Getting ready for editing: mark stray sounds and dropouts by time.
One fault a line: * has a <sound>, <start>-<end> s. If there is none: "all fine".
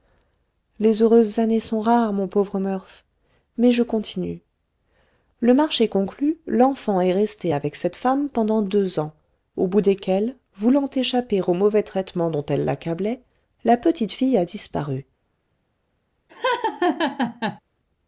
* has a laugh, 16.3-17.6 s